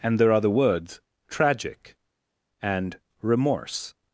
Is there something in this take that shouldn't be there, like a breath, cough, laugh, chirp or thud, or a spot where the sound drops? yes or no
no